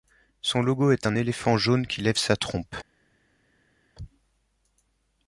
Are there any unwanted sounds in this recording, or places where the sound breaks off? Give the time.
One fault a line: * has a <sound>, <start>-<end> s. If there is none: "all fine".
all fine